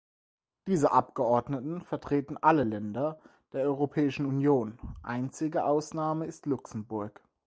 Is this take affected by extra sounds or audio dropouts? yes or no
no